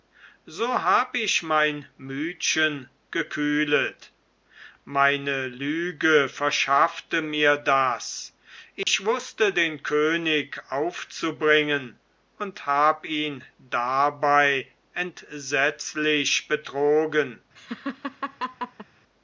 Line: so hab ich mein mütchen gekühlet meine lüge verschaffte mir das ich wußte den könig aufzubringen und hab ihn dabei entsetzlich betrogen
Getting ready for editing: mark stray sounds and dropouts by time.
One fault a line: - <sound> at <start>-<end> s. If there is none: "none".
- dropout at 8.8-8.9 s
- laugh at 17.6-18.9 s